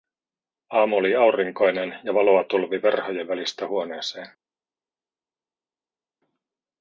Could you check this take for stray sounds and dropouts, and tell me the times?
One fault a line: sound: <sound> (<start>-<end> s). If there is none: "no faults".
no faults